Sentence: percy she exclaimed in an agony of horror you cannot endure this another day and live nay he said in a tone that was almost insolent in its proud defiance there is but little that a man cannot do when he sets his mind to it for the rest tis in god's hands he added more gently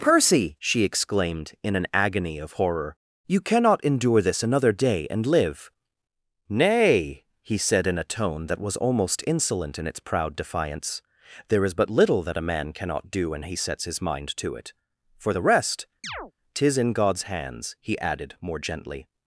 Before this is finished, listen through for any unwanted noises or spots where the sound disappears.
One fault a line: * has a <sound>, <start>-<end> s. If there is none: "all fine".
* has a chirp, 16.0-16.3 s